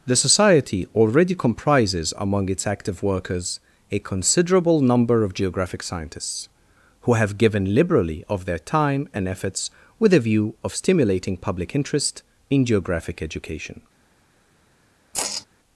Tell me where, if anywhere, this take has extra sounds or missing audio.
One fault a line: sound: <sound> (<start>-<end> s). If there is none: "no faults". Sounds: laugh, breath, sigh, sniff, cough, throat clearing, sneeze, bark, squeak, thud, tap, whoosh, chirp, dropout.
sound: sigh (15.1-15.5 s)